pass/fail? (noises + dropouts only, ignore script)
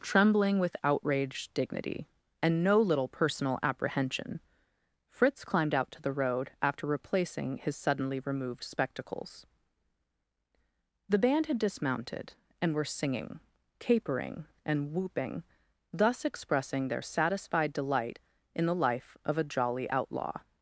pass